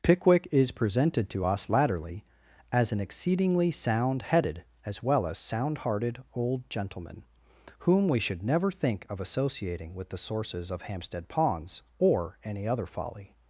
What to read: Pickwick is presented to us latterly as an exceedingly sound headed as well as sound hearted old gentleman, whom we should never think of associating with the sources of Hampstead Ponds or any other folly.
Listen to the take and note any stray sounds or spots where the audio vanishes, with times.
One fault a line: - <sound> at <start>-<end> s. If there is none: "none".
none